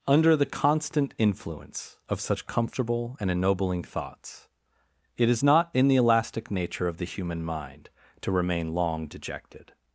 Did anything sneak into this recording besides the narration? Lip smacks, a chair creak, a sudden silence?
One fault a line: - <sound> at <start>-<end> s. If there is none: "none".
none